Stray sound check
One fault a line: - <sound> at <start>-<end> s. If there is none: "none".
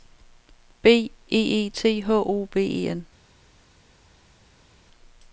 none